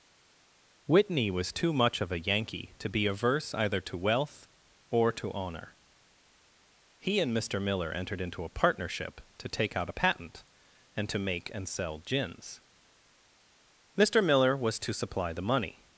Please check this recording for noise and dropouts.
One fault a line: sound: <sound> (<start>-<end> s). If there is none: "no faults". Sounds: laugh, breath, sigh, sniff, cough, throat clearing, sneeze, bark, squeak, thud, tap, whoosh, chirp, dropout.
no faults